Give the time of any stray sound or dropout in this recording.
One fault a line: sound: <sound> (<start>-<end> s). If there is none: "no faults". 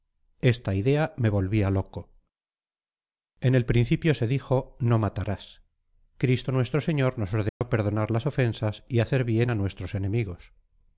sound: dropout (7.5-7.6 s)